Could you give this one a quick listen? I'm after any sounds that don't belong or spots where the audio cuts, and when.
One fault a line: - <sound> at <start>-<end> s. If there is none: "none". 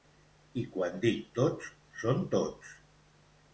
none